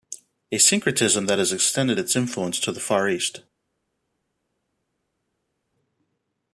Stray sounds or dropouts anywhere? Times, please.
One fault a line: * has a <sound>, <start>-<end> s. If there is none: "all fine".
all fine